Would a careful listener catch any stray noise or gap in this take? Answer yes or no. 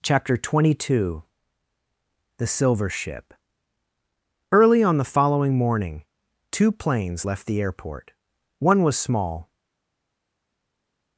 no